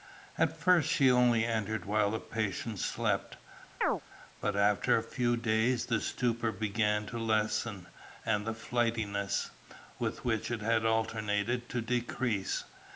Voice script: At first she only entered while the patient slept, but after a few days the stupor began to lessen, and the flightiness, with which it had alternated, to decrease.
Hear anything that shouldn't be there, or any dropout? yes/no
yes